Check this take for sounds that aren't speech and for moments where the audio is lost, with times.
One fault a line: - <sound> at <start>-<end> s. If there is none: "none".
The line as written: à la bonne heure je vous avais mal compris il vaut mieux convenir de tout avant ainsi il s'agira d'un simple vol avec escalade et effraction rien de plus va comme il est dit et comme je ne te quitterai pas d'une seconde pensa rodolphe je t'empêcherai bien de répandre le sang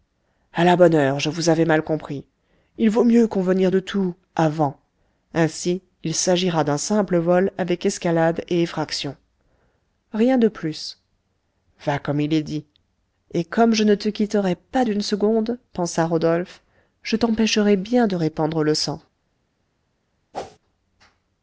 - whoosh at 20.3-20.6 s